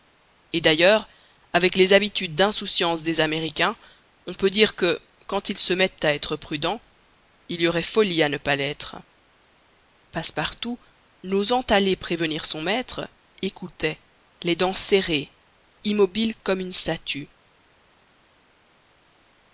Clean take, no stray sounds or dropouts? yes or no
yes